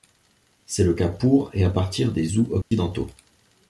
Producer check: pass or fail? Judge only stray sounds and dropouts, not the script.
fail